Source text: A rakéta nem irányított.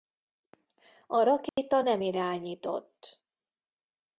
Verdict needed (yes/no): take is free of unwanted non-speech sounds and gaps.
no